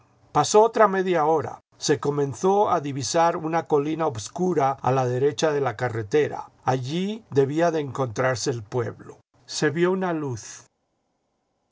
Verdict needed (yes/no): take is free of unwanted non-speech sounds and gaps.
yes